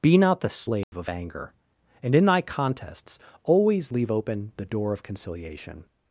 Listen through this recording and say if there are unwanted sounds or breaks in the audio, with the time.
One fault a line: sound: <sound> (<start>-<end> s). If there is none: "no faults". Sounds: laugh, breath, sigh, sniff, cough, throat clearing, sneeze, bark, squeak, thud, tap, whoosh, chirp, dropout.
sound: dropout (0.8-0.9 s)